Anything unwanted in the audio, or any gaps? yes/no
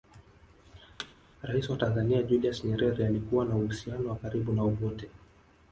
yes